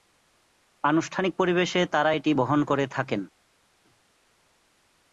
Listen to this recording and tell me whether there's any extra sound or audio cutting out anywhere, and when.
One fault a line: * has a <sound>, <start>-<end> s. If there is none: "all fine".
all fine